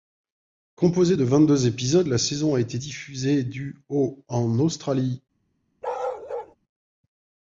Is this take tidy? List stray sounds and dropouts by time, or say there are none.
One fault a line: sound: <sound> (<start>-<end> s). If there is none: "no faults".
sound: bark (5.8-6.6 s)